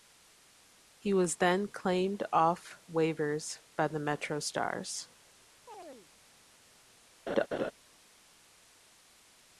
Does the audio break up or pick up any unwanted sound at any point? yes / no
yes